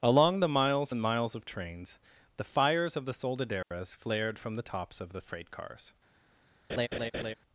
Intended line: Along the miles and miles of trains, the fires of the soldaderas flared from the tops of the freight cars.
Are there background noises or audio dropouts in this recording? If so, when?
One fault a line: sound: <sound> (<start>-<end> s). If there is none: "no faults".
sound: dropout (3.6-3.7 s)
sound: laugh (6.7-7.3 s)